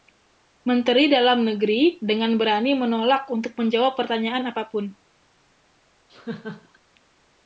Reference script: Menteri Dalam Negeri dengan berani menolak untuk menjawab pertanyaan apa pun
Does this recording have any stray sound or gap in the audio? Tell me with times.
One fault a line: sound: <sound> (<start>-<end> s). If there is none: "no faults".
sound: laugh (6.1-6.8 s)